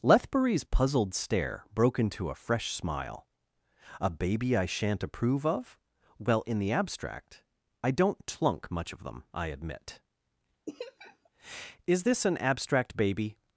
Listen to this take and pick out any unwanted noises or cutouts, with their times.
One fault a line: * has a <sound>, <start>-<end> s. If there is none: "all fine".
* has a laugh, 10.7-11.3 s